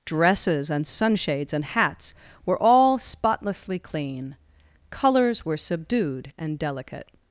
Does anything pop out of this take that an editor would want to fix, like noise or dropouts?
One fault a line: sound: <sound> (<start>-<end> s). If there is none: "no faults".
no faults